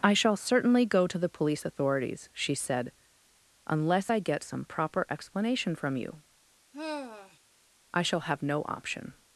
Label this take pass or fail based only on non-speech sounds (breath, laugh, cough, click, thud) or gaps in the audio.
fail